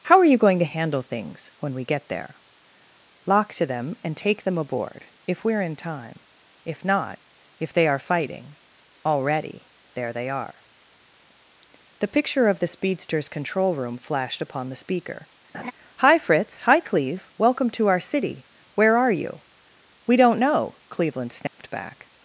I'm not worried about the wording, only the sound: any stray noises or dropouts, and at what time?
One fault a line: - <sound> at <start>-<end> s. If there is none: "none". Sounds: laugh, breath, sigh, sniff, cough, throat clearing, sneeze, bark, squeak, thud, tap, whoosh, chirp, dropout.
- laugh at 15.5-15.7 s
- dropout at 21.5-21.6 s